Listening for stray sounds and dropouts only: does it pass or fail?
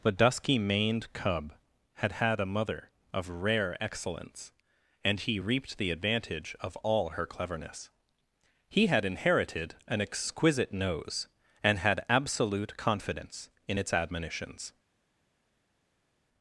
pass